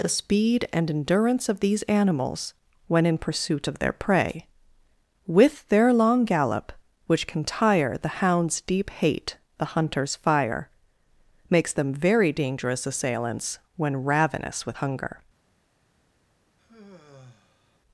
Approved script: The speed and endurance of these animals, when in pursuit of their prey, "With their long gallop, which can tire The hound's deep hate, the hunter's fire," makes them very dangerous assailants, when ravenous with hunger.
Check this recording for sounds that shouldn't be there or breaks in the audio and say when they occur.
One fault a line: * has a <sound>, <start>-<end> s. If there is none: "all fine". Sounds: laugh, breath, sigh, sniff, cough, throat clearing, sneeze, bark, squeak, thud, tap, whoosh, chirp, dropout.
* has a sigh, 16.6-17.8 s